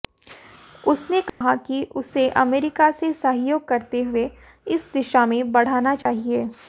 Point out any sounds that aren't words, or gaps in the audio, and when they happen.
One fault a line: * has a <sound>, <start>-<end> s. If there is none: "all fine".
* has a dropout, 1.3-1.4 s
* has a dropout, 6.0-6.1 s